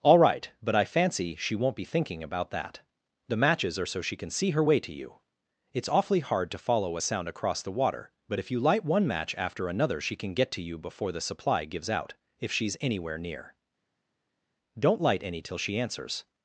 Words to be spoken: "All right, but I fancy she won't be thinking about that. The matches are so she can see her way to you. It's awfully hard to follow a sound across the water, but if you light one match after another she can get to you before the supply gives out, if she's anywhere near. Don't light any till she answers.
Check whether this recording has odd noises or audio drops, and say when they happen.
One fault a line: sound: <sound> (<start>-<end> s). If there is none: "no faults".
no faults